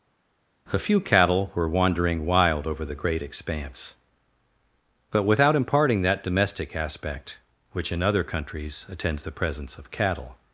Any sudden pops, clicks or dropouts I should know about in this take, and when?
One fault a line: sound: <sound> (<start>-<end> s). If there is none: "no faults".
no faults